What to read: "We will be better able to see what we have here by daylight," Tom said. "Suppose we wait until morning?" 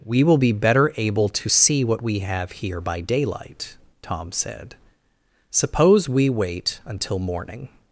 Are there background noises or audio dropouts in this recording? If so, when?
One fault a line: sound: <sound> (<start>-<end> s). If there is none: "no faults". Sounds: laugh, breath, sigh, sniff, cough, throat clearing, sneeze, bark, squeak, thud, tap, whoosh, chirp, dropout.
no faults